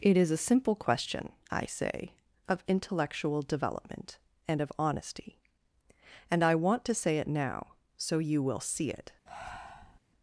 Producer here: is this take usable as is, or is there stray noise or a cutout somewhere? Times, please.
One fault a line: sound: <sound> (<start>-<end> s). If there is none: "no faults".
sound: breath (9.3-10.0 s)